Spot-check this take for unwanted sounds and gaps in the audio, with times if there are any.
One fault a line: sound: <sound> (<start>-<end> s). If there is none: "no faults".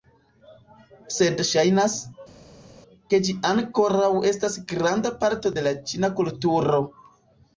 no faults